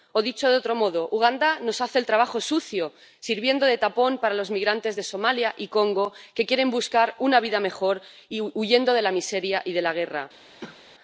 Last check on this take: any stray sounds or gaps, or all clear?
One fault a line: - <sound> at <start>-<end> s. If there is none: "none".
- cough at 10.6-10.8 s